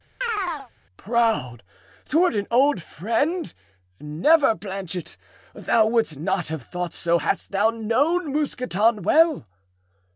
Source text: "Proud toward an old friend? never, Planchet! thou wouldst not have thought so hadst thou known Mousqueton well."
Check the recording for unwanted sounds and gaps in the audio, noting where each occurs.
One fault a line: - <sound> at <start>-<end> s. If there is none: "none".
- chirp at 0.2-0.7 s